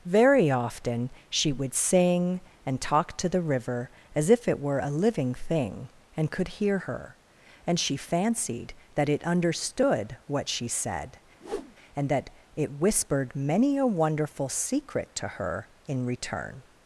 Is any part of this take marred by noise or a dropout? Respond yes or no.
yes